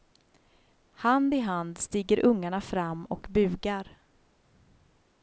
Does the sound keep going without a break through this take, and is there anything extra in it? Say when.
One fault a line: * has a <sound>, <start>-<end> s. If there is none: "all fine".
all fine